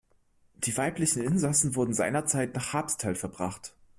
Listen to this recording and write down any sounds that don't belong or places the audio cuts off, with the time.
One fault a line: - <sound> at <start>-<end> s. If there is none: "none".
none